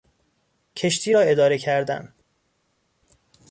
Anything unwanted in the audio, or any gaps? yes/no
no